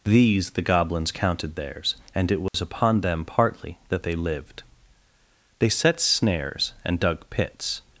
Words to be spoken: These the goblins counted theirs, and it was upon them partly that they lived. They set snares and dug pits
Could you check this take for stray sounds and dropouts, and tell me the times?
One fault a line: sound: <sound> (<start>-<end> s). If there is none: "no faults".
sound: dropout (2.5-2.5 s)